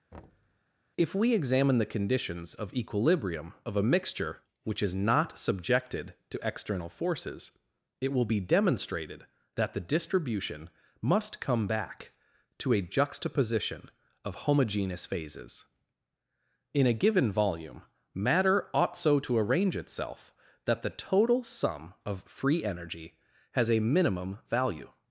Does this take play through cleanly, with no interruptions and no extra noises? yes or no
no